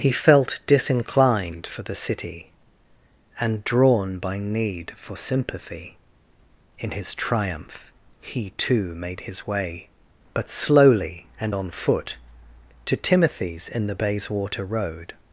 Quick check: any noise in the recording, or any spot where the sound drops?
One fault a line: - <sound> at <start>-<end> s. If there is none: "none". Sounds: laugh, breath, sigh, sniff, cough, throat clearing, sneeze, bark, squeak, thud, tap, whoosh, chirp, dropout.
none